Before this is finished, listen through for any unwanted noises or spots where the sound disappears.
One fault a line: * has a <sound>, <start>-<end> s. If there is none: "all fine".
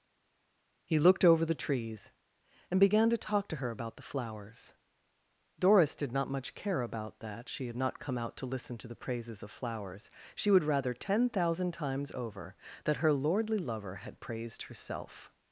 all fine